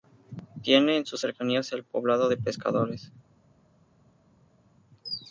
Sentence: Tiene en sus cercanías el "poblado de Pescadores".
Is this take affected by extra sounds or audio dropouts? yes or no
no